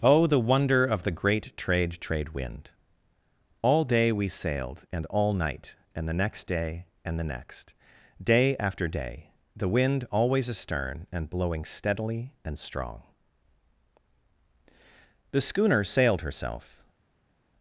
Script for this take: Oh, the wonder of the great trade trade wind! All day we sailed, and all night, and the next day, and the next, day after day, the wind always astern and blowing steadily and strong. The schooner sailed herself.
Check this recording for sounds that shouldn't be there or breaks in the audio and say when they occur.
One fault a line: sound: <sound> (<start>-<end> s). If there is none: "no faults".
no faults